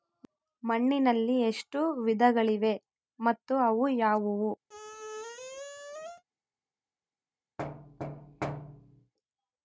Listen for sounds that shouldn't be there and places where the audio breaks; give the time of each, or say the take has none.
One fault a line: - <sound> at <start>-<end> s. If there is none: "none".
- squeak at 4.7-6.2 s
- thud at 7.6-9.1 s